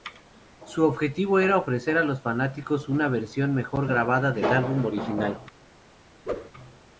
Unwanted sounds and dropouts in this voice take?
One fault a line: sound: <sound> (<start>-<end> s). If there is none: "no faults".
sound: whoosh (6.3-6.5 s)